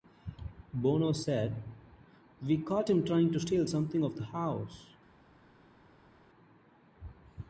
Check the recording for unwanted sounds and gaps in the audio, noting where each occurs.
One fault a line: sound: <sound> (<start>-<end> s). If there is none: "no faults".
no faults